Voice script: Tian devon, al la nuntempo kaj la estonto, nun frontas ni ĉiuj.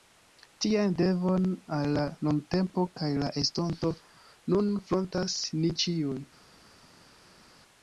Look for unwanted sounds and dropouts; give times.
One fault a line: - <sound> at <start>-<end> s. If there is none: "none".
none